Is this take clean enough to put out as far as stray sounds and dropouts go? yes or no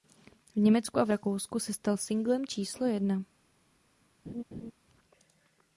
no